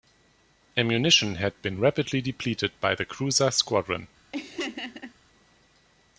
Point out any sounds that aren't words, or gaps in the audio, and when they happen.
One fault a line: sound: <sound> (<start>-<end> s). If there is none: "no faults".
sound: laugh (4.3-5.1 s)